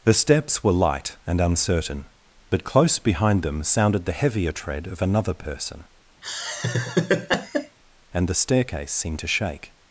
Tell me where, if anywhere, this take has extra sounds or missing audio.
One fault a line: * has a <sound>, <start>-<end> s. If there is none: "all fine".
* has a laugh, 6.2-7.8 s